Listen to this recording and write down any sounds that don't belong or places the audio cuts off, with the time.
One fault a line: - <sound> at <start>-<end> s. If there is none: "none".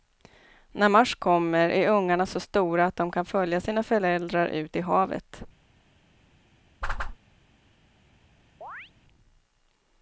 - whoosh at 6.8-7.2 s
- chirp at 8.6-8.9 s